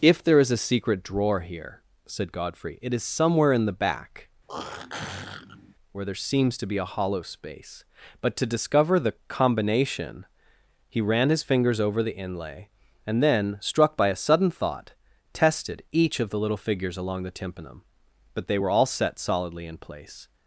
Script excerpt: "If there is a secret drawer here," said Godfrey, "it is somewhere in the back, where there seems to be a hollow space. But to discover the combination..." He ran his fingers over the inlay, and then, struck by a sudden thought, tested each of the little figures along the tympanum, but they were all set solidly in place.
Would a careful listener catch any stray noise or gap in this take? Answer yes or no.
yes